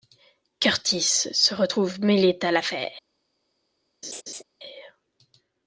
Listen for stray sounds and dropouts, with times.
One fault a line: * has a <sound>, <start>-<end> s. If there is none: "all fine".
* has a laugh, 4.0-4.4 s